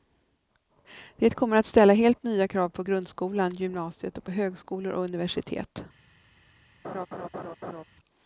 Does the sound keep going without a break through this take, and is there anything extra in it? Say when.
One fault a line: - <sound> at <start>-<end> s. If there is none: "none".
- laugh at 6.8-7.8 s